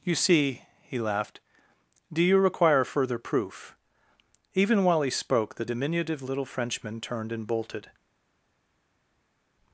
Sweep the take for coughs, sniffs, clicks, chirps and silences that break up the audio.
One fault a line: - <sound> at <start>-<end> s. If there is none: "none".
none